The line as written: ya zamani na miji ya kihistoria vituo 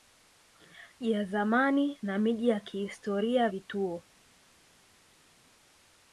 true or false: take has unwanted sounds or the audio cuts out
false